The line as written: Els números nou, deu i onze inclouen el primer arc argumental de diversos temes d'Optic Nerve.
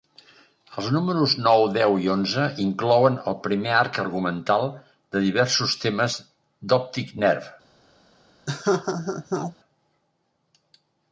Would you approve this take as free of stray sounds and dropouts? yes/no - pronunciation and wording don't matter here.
no